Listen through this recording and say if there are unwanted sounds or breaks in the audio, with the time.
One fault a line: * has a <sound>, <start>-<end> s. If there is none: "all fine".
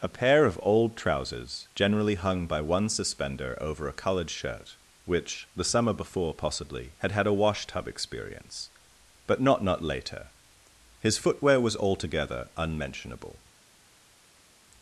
all fine